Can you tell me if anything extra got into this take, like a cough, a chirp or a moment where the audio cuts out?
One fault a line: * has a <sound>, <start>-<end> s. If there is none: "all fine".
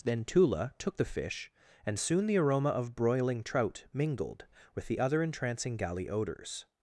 all fine